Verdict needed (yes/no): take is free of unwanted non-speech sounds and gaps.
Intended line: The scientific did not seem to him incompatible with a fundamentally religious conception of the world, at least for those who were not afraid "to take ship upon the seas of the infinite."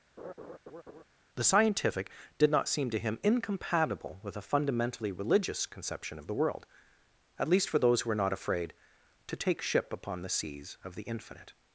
no